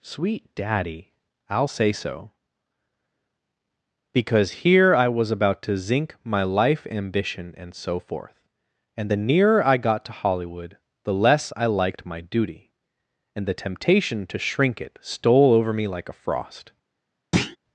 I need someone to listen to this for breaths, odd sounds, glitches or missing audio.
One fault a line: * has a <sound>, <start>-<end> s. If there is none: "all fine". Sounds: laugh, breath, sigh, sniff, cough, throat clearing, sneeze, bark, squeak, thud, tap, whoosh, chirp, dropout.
* has a thud, 17.3-17.6 s